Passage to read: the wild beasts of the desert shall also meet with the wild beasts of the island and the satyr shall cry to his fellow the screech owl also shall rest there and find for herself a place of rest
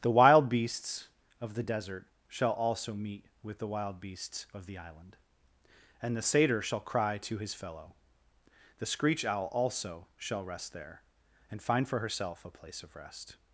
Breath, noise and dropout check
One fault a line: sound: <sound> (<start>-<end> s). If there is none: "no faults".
no faults